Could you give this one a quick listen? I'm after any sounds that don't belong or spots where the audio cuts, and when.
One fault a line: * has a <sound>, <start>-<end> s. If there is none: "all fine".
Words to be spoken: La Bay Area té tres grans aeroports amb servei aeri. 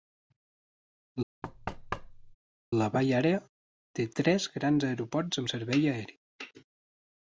* has a thud, 1.4-2.4 s